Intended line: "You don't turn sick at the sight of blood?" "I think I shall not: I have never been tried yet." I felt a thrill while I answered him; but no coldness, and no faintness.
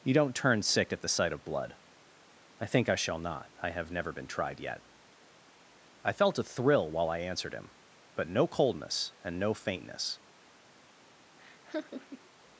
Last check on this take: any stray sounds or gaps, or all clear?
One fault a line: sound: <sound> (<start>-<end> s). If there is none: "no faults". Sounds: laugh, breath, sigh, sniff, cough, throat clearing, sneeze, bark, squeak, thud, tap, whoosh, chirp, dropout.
sound: laugh (11.4-12.3 s)